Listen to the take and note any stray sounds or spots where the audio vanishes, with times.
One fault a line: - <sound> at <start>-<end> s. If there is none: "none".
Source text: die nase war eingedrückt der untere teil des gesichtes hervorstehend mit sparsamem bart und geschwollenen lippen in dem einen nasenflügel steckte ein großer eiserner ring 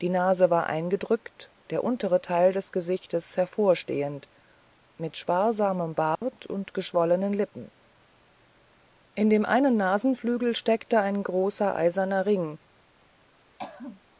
- dropout at 6.2-6.2 s
- throat clearing at 13.6-14.0 s